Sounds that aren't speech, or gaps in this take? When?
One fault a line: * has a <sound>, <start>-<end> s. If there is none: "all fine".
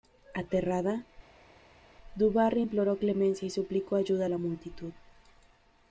all fine